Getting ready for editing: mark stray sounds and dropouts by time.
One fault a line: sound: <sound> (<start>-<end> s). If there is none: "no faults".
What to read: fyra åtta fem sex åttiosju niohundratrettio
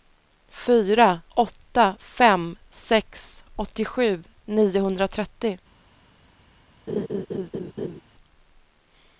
sound: laugh (6.9-8.0 s)